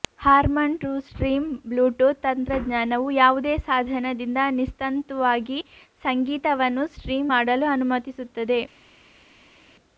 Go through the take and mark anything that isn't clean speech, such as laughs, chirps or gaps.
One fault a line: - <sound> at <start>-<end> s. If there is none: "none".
none